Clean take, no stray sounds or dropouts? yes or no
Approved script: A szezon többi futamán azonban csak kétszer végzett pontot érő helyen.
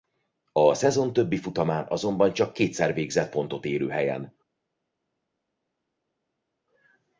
yes